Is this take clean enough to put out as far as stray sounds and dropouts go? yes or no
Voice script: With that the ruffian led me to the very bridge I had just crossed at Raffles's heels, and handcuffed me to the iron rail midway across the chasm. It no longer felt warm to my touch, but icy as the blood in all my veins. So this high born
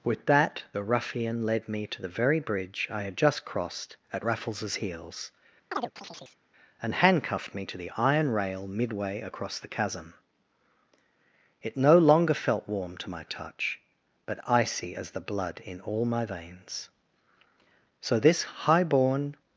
no